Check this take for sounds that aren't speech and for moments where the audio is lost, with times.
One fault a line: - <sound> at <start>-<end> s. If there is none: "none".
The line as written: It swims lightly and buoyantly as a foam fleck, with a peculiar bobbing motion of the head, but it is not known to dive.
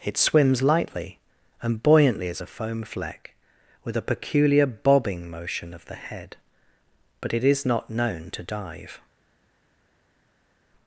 none